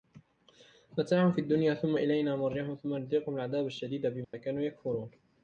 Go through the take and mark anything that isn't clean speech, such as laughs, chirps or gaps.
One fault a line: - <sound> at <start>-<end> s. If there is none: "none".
- dropout at 4.2-4.3 s